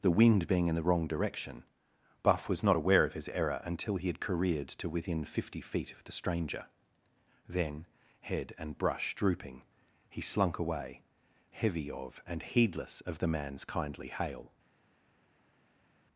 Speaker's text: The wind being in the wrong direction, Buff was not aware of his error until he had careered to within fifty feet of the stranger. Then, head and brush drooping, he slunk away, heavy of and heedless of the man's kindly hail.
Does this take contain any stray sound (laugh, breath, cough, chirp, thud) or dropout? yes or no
no